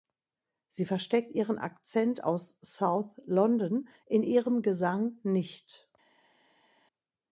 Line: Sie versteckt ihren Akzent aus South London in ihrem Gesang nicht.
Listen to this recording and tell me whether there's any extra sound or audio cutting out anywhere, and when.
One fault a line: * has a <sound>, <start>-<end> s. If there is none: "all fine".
all fine